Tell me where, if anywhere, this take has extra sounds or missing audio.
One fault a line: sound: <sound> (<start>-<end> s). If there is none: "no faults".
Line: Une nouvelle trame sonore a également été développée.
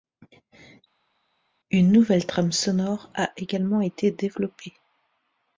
no faults